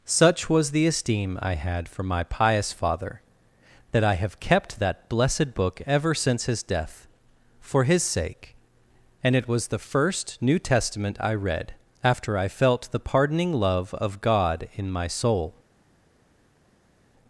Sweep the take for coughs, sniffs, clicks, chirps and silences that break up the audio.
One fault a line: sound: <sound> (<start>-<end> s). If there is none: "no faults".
no faults